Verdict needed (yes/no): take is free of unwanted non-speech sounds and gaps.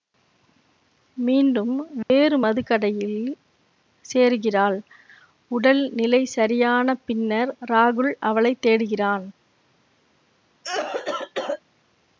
no